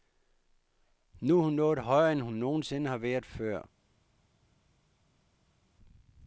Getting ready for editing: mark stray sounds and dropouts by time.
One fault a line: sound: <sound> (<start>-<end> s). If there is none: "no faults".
no faults